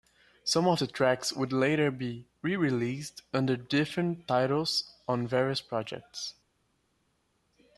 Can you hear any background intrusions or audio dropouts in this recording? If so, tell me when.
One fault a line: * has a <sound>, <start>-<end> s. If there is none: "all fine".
all fine